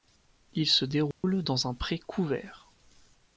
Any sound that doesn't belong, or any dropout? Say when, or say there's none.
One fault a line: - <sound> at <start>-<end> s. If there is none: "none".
- dropout at 1.1-1.2 s